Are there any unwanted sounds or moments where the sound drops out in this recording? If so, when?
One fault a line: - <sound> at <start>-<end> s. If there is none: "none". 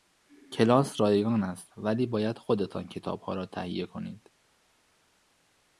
none